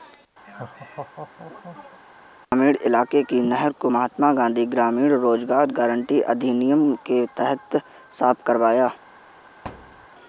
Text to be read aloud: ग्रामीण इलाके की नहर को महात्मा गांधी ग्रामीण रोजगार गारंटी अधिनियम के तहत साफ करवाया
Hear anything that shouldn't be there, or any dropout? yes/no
yes